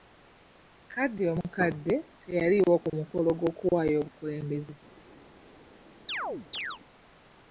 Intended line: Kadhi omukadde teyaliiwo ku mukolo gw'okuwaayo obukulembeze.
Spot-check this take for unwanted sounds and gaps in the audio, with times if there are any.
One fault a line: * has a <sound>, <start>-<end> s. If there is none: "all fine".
* has a chirp, 6.1-6.8 s